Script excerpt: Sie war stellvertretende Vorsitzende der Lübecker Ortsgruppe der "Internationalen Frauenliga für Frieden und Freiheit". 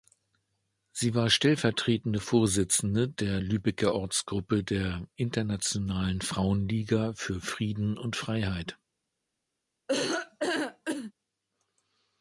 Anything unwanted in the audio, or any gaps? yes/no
yes